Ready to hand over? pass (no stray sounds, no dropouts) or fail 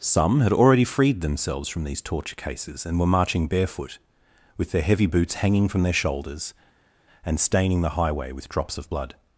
pass